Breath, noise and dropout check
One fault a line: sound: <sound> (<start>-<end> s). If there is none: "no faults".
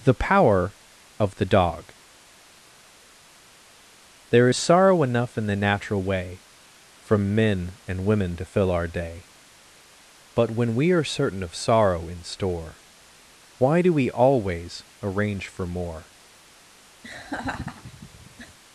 sound: laugh (17.0-18.6 s)